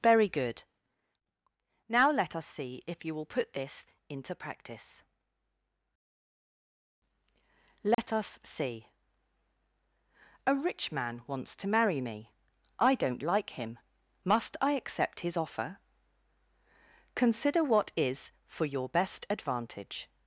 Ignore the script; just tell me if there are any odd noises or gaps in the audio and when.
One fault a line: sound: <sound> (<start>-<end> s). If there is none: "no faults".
sound: dropout (7.9-8.0 s)